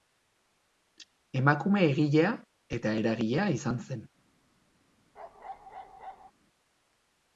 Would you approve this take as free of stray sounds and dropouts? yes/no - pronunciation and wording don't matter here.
no